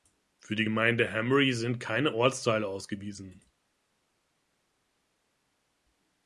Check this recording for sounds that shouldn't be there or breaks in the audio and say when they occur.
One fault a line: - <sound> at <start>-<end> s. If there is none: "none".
none